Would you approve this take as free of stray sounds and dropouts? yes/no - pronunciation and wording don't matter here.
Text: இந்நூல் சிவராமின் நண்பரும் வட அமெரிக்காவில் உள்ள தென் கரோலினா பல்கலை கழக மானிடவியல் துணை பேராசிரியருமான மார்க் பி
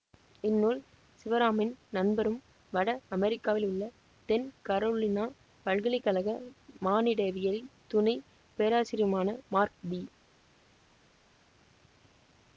yes